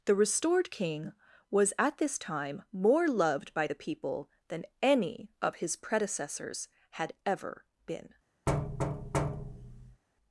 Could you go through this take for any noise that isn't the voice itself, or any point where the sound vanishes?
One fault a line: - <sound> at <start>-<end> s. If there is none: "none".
- thud at 8.5-10.0 s